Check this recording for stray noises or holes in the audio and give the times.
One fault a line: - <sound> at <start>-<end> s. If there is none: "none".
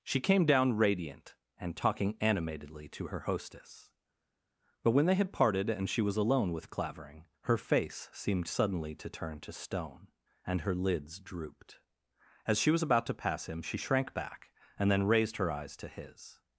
none